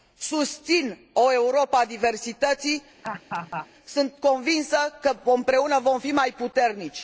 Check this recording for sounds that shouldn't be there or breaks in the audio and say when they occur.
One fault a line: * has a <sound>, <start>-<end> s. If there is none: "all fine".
* has a laugh, 3.0-3.7 s